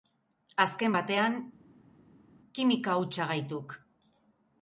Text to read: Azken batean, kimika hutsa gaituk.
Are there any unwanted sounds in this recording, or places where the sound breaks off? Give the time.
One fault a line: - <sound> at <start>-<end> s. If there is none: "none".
none